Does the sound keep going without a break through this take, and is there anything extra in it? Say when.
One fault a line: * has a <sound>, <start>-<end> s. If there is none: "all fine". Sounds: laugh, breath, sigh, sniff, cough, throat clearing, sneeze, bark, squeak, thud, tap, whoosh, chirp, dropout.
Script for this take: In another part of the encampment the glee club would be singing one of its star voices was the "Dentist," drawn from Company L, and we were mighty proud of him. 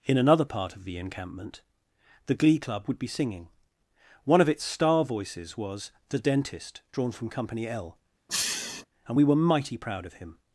* has a sniff, 8.3-8.9 s